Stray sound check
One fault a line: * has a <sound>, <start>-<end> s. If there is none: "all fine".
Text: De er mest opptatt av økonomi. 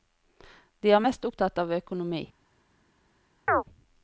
* has a chirp, 3.5-3.6 s